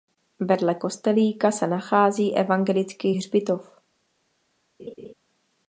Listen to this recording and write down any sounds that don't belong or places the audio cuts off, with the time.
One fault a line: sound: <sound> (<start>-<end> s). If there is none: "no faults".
sound: laugh (4.8-5.1 s)